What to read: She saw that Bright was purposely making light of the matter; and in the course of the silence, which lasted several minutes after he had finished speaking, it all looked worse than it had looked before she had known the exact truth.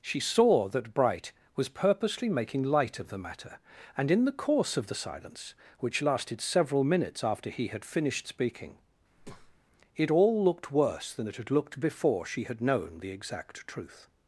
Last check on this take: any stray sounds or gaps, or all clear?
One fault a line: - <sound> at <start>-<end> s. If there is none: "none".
- breath at 9.2-9.6 s